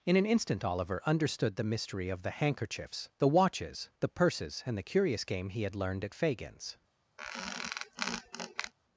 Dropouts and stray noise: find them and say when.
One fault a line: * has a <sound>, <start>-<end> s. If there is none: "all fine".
* has a squeak, 7.2-8.7 s